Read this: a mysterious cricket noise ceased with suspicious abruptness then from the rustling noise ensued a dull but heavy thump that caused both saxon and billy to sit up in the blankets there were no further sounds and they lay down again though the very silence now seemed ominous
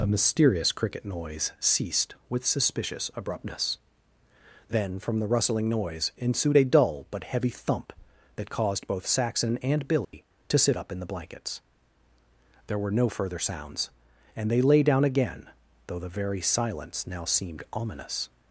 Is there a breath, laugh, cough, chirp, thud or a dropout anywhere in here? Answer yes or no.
yes